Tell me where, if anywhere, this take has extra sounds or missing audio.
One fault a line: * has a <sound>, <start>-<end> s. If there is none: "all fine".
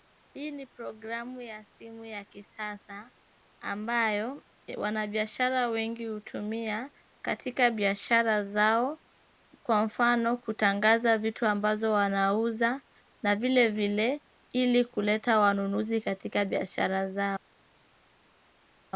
all fine